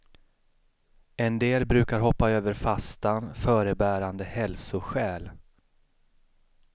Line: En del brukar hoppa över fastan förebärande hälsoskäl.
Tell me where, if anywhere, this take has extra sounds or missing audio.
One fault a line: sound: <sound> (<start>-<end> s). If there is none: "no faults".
no faults